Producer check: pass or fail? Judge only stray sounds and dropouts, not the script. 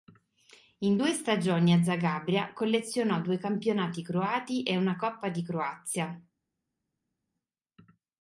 pass